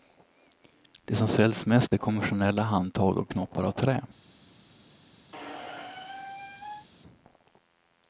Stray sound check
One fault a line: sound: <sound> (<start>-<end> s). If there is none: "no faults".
sound: squeak (5.3-6.9 s)